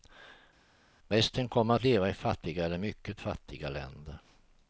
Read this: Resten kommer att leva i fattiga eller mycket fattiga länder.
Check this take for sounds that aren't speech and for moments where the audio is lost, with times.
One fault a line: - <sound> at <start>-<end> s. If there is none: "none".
none